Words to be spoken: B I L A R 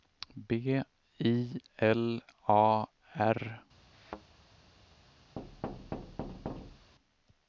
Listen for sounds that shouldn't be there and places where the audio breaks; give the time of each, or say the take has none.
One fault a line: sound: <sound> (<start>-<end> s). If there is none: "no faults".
sound: thud (3.9-4.2 s)
sound: thud (5.4-6.9 s)